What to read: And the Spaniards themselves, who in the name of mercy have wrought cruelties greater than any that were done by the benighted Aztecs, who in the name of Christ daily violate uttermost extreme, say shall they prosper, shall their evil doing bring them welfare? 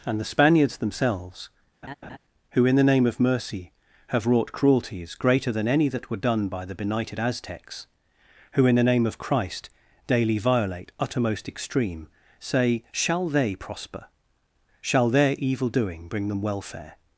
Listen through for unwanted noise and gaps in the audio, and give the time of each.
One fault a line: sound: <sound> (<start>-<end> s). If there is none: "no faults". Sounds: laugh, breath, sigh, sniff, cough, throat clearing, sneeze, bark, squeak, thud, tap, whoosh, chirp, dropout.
sound: laugh (1.8-2.2 s)